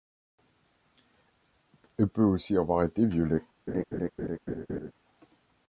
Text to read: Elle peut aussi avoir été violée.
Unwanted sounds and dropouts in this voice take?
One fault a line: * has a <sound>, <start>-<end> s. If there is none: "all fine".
* has a laugh, 3.7-4.9 s